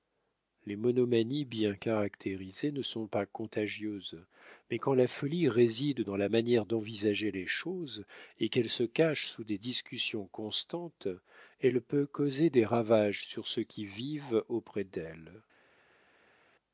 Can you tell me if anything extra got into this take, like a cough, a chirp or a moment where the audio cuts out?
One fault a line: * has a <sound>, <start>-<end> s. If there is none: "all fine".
all fine